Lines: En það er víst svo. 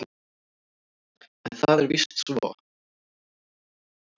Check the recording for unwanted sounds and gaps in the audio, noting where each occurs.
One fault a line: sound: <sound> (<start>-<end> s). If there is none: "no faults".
no faults